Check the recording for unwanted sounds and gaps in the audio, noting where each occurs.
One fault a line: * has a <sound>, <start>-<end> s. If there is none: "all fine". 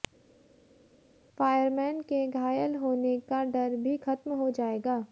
all fine